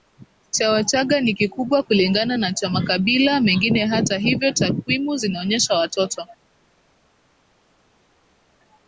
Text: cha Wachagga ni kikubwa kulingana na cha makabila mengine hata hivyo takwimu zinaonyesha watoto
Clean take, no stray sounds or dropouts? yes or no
yes